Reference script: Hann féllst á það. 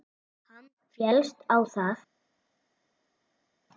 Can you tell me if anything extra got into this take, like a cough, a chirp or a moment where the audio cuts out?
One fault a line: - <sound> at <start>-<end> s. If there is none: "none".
none